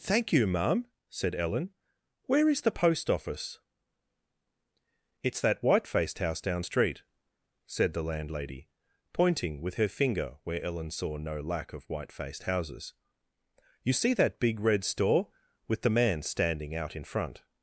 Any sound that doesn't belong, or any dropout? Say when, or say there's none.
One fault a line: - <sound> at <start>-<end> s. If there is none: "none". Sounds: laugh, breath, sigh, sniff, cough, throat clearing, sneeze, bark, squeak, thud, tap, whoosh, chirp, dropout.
none